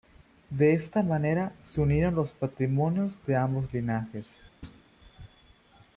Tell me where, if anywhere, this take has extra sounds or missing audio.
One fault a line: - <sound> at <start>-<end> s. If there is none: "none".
- thud at 4.6-4.9 s